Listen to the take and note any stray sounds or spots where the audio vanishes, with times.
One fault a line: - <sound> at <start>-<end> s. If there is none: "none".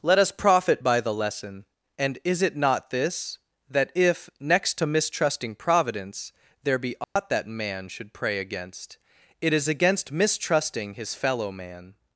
- dropout at 7.0-7.2 s